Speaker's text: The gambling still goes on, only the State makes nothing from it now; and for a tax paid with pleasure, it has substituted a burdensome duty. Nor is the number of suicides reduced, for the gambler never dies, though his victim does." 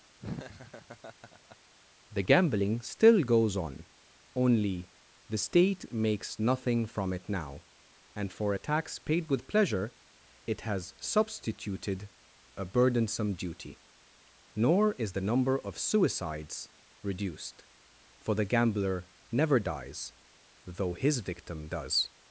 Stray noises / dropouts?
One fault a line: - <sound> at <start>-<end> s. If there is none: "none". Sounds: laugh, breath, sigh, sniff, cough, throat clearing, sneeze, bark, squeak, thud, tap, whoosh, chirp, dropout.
- laugh at 0.2-1.6 s